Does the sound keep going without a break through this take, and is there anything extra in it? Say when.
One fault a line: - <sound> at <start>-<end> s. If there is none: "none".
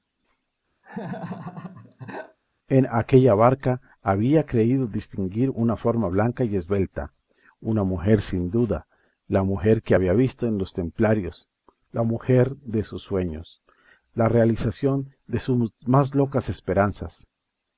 - laugh at 0.8-2.4 s